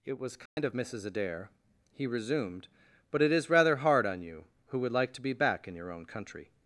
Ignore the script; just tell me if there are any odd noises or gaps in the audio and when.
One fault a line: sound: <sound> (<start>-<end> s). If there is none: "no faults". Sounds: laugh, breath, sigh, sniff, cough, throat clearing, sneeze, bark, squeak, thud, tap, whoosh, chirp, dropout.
sound: dropout (0.5-0.6 s)